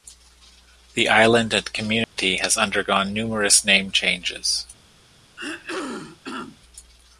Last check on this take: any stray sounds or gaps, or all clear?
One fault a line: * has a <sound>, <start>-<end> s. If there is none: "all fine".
* has a dropout, 2.0-2.2 s
* has a throat clearing, 5.4-6.6 s